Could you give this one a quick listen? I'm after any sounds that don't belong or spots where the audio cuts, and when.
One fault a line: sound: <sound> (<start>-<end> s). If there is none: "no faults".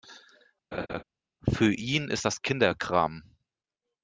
sound: laugh (0.7-1.0 s)